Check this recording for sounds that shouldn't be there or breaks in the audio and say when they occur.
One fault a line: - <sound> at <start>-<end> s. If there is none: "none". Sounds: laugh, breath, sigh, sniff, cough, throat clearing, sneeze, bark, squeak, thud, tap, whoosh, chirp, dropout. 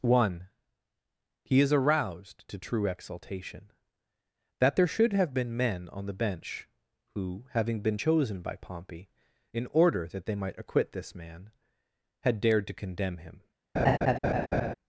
- laugh at 13.8-14.7 s